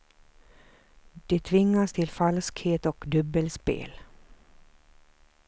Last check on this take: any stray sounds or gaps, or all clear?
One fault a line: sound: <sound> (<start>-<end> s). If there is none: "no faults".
no faults